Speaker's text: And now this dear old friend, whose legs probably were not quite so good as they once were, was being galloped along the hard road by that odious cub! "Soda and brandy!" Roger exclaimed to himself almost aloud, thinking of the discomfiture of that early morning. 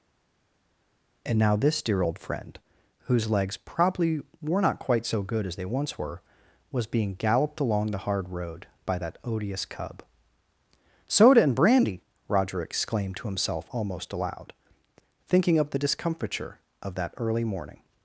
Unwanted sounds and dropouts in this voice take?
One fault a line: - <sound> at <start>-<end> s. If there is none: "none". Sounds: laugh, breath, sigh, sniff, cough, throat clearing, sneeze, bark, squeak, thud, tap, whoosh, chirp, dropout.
none